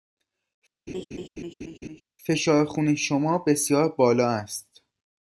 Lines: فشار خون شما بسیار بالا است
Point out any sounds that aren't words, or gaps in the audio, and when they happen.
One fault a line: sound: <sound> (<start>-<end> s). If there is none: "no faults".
sound: laugh (0.9-2.0 s)